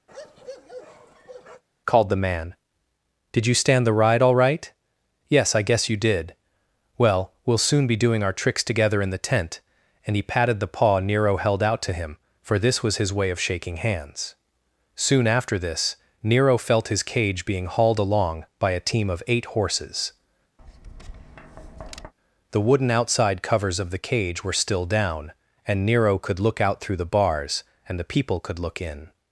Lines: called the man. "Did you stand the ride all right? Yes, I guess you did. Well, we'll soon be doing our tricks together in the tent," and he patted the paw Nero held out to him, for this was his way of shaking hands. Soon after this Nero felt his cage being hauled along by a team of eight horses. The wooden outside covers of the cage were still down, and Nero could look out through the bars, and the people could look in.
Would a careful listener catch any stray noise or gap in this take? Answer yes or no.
yes